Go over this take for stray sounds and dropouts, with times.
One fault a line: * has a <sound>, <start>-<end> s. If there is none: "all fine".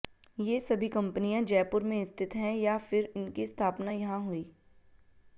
all fine